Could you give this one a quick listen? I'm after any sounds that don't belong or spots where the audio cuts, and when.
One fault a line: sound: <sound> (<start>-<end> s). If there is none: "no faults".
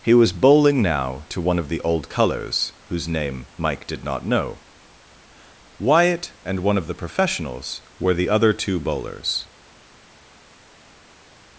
no faults